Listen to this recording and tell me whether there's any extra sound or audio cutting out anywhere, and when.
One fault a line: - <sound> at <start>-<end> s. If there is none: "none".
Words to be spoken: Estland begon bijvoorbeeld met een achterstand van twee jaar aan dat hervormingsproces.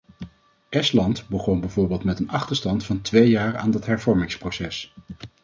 none